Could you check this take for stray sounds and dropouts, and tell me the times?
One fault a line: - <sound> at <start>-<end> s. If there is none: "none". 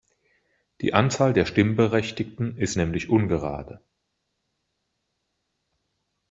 none